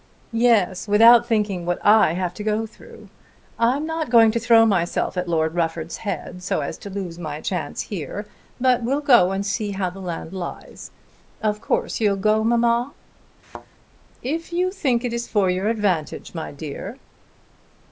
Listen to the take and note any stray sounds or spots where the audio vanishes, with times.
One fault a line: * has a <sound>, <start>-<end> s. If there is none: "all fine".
* has a thud, 13.4-13.7 s